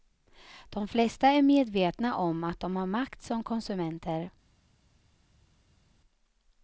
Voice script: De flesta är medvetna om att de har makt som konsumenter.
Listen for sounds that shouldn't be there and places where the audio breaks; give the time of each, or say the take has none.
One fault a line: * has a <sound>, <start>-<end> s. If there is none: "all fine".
all fine